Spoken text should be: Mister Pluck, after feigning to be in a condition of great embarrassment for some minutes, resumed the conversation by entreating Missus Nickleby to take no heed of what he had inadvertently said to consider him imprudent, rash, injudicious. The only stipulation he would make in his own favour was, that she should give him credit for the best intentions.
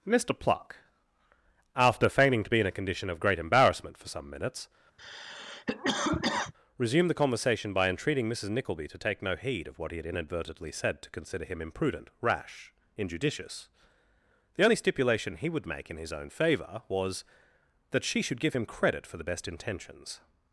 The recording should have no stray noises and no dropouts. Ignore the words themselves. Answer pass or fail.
fail